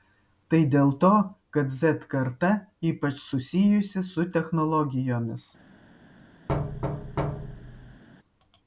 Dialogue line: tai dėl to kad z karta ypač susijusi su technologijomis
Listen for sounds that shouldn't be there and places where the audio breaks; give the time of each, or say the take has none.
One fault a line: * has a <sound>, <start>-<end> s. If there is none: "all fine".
* has a thud, 6.5-8.0 s